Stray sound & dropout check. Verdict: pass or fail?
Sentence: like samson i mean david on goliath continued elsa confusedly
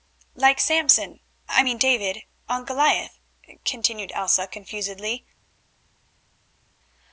pass